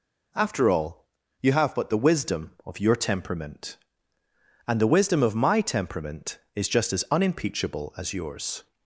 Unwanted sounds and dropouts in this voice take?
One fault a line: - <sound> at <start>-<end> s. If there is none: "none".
none